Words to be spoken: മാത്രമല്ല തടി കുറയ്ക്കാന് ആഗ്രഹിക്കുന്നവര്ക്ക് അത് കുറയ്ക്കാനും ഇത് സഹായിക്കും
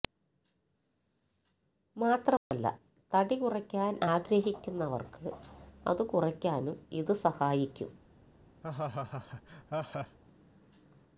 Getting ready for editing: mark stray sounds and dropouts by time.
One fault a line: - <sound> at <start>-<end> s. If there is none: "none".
- dropout at 2.4-2.5 s
- laugh at 8.6-10.2 s